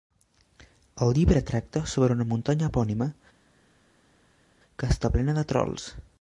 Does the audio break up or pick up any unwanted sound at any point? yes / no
no